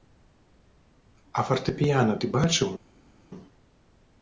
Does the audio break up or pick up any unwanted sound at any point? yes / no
no